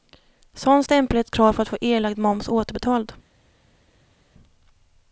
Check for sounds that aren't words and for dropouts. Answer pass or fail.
pass